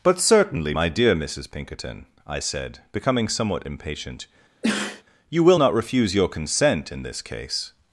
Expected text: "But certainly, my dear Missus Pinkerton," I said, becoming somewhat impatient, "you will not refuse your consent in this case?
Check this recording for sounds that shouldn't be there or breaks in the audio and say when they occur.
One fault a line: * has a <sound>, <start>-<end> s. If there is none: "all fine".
* has a sneeze, 4.6-5.0 s